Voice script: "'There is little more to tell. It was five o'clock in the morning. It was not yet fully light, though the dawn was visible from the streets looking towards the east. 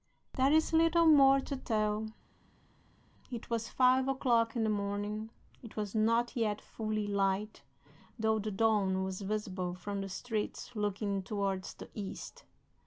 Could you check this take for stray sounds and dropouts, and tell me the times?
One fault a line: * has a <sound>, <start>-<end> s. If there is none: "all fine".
all fine